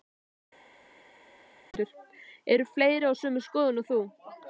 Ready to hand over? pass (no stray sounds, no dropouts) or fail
pass